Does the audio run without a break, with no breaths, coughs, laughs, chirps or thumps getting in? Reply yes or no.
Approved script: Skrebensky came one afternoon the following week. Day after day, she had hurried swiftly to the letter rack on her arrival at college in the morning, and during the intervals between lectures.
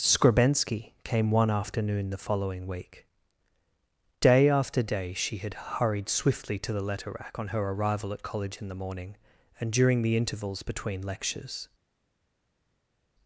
yes